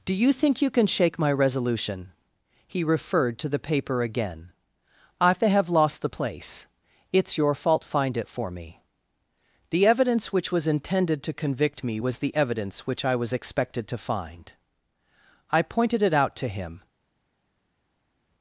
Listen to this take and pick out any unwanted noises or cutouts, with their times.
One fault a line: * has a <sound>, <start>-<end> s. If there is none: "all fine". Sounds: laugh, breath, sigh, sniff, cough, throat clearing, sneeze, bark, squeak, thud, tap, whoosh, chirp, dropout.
all fine